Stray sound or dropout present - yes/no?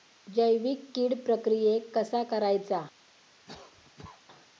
yes